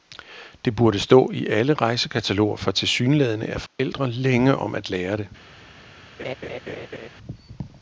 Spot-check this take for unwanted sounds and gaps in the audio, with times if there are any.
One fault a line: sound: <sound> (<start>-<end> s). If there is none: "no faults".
sound: dropout (3.7-3.8 s)
sound: laugh (6.2-7.1 s)